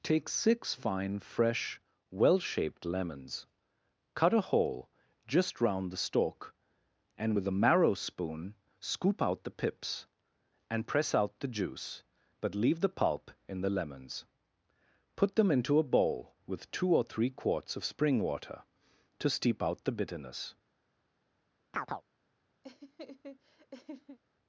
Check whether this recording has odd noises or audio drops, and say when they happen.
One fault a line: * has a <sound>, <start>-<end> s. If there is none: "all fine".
* has a chirp, 21.7-22.0 s
* has a laugh, 22.6-24.2 s